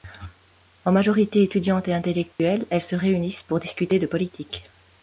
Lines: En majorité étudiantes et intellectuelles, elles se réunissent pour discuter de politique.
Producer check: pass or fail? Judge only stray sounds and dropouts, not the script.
fail